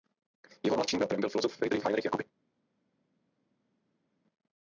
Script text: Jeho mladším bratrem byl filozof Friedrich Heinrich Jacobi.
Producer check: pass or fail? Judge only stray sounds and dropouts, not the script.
pass